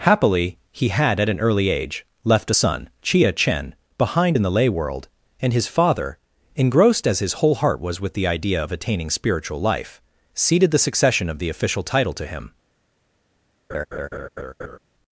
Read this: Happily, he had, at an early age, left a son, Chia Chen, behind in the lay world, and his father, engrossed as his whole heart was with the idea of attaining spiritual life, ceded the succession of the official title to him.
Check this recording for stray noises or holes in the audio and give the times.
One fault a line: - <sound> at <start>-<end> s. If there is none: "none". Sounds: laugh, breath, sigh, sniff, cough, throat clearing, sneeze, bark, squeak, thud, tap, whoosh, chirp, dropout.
- laugh at 13.7-14.8 s